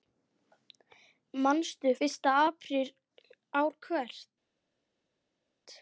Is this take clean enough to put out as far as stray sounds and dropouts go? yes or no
yes